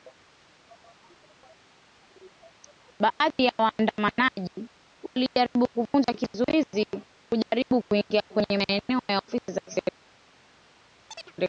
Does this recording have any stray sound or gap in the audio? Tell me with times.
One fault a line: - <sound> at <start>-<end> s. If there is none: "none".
- chirp at 11.1-11.3 s